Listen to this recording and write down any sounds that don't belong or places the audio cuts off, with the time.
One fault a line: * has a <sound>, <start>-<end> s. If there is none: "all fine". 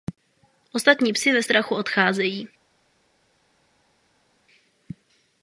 all fine